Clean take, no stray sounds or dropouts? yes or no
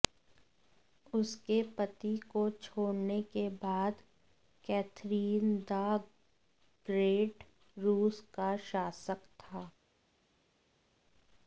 yes